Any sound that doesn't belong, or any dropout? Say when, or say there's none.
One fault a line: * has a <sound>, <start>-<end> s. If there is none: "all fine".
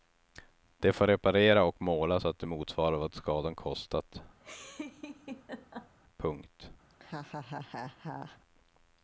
* has a laugh, 4.4-6.0 s
* has a laugh, 6.9-8.4 s